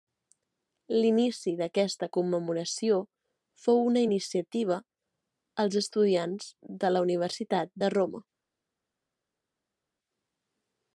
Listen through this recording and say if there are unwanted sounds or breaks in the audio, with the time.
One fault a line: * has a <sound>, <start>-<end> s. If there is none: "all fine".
all fine